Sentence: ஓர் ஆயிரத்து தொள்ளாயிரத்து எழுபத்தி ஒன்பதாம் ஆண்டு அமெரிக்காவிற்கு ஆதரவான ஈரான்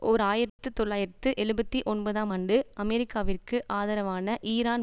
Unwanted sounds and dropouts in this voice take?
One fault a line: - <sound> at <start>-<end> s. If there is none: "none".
- dropout at 0.5-0.6 s